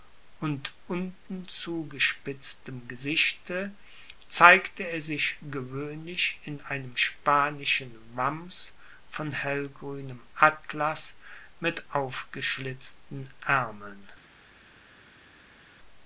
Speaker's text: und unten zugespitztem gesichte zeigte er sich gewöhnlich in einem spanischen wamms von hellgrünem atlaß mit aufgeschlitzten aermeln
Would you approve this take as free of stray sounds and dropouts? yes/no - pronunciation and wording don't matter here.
yes